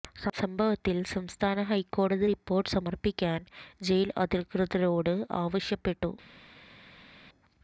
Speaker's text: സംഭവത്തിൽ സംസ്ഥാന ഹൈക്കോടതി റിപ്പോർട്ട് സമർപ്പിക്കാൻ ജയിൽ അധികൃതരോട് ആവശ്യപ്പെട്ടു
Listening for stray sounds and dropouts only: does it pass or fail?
pass